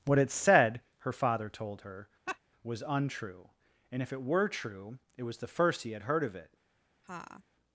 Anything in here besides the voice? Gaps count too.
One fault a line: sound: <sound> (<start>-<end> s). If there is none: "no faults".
sound: laugh (2.3-2.4 s)
sound: laugh (7.0-7.4 s)